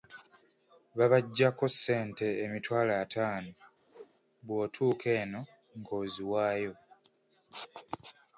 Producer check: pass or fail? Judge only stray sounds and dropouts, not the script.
fail